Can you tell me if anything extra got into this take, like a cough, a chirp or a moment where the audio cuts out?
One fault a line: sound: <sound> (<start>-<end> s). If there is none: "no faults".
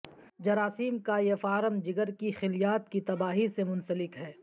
no faults